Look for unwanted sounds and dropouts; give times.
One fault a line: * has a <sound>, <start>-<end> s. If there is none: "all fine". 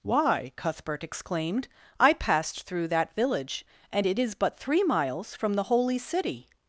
all fine